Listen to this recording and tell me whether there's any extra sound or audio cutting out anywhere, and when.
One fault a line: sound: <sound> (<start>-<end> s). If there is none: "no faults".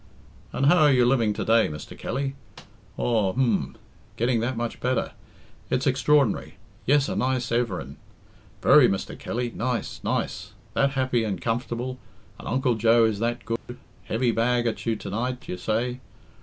sound: dropout (13.6-13.7 s)